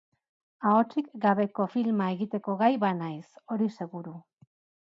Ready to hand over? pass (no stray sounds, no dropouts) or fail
pass